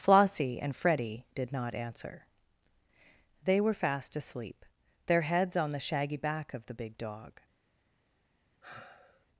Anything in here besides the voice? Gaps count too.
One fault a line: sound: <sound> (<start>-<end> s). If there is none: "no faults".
sound: sigh (8.6-9.3 s)